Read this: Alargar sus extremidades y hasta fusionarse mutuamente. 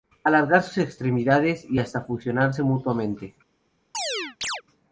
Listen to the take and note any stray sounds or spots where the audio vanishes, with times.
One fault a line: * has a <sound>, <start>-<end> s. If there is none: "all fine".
* has a chirp, 3.9-4.6 s